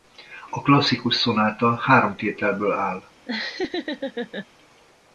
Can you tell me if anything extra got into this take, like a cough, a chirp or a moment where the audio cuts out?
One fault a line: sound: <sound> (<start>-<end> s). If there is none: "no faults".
sound: laugh (3.3-4.5 s)